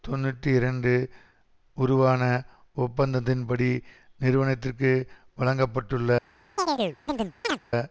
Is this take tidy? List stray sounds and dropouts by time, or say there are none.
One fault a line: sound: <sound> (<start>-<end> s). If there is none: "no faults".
sound: chirp (6.6-7.6 s)